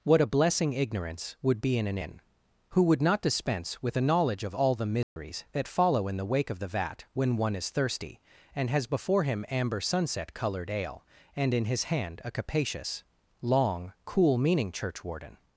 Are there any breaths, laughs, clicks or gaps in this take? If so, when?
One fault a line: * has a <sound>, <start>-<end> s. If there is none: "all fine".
* has a dropout, 5.0-5.2 s